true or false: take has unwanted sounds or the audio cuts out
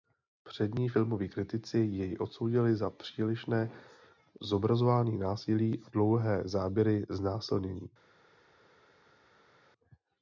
false